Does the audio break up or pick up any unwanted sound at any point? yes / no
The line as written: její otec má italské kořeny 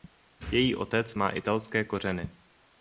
no